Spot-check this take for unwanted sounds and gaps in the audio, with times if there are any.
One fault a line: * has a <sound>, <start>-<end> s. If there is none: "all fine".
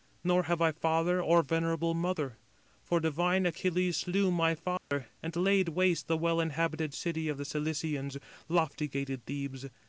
* has a dropout, 4.8-4.9 s